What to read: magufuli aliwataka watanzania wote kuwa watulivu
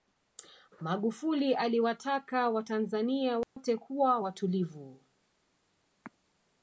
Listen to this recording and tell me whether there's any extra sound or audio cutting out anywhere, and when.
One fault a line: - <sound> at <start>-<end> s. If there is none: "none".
- dropout at 3.4-3.6 s